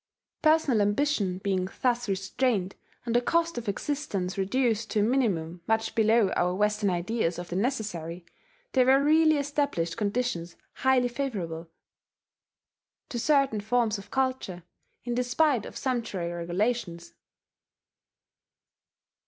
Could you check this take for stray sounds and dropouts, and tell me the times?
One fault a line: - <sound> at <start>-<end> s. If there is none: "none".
none